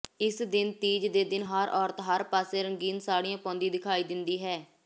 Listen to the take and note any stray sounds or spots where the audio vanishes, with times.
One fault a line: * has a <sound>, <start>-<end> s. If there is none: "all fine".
all fine